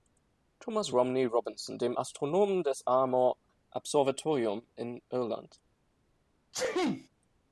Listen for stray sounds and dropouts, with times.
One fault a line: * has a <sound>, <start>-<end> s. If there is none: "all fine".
* has a sneeze, 6.5-7.1 s